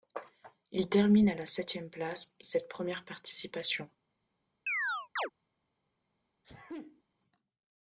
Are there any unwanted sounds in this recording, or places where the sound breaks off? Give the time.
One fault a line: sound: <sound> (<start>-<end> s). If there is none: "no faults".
sound: chirp (4.7-5.3 s)
sound: sneeze (6.4-7.0 s)